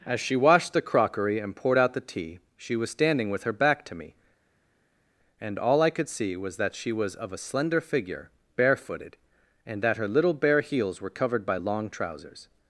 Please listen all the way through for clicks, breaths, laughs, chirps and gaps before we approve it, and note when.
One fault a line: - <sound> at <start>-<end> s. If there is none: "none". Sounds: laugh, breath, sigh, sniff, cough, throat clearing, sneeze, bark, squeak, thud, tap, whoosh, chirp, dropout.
none